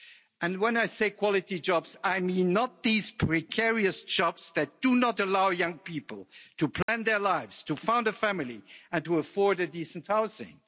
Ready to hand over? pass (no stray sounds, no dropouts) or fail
fail